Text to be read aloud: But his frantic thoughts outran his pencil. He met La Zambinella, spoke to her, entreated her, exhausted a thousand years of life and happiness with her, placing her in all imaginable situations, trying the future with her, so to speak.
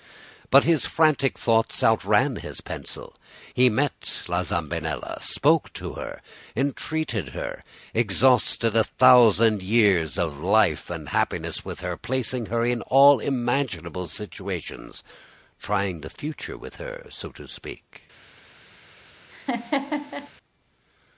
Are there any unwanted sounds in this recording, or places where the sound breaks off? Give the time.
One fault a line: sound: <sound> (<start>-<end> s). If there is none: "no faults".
sound: laugh (19.3-20.3 s)